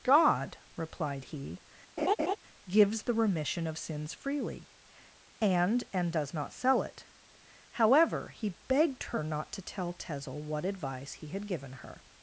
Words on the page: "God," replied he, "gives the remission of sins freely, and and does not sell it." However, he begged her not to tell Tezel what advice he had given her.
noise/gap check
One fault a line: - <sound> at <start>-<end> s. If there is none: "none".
- laugh at 2.0-2.4 s